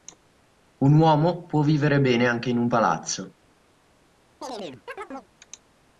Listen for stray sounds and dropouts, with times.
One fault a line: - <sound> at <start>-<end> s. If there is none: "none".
- chirp at 4.4-5.3 s